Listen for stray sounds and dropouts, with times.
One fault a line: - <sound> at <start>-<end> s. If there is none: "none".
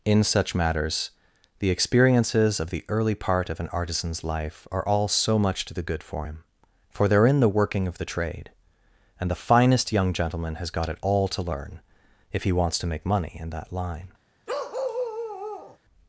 - bark at 14.5-15.8 s